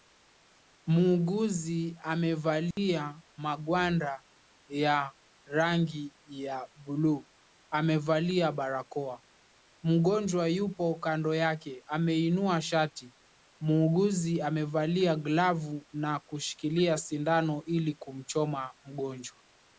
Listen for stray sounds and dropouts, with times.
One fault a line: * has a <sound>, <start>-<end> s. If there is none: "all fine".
* has a dropout, 2.7-2.8 s